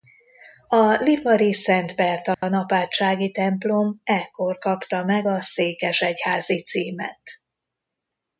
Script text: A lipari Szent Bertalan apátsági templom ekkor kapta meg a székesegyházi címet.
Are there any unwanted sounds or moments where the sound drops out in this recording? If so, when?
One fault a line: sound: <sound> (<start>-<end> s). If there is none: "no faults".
sound: dropout (2.3-2.4 s)